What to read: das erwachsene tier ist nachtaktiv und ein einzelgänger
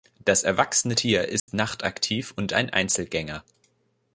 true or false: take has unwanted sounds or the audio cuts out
true